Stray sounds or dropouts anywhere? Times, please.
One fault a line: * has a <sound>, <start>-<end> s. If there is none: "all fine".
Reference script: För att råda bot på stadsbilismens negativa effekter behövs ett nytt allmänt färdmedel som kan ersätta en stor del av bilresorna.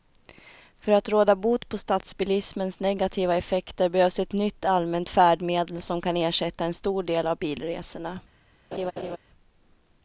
* has a laugh, 8.7-9.2 s